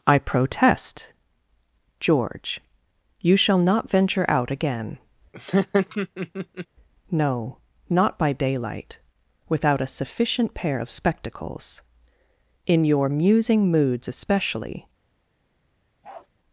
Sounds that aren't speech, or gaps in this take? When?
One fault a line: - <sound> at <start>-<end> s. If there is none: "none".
- laugh at 5.3-6.7 s
- bark at 16.0-16.3 s